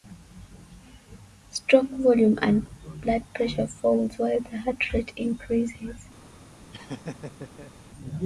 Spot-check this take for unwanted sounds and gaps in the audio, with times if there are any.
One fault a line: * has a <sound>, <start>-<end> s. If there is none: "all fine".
* has a laugh, 6.7-7.7 s